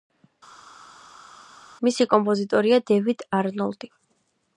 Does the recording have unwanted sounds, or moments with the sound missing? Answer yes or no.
no